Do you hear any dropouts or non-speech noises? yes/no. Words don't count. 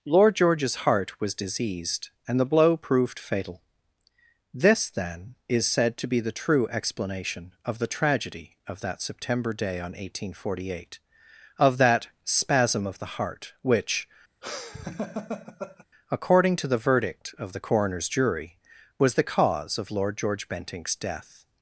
yes